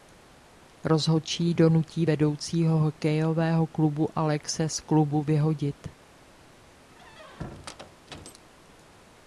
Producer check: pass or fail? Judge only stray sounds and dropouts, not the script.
fail